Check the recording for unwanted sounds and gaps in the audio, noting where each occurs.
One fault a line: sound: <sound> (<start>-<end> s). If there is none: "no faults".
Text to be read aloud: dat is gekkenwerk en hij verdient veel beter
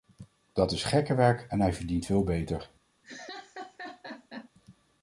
sound: laugh (3.0-4.5 s)